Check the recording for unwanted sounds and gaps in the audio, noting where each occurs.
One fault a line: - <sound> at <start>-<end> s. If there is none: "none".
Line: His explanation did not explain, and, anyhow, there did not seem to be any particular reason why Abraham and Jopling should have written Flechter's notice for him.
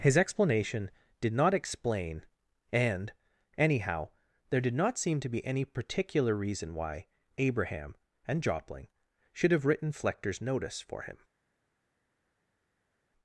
none